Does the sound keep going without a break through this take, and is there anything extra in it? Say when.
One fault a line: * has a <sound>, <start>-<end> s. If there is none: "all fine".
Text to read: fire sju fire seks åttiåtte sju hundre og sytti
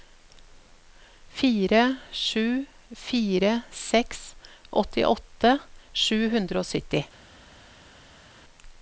all fine